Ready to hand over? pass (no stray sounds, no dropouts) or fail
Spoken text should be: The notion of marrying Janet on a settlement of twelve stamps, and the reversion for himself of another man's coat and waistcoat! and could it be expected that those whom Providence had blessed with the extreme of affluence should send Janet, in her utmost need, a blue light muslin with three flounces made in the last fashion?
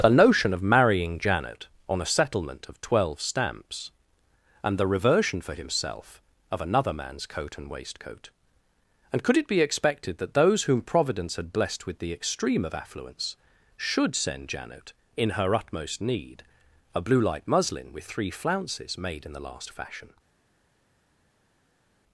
pass